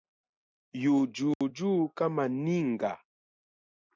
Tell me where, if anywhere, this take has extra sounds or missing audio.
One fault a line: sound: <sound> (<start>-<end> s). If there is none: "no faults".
sound: dropout (1.3-1.4 s)